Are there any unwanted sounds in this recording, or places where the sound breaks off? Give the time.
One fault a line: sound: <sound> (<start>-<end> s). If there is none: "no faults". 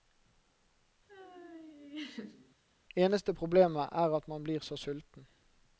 sound: laugh (1.1-2.6 s)